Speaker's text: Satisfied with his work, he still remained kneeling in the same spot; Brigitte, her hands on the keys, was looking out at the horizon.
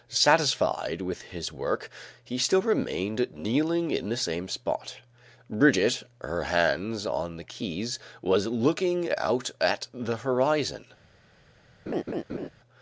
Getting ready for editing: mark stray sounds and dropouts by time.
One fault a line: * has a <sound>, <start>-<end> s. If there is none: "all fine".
* has a laugh, 11.9-12.5 s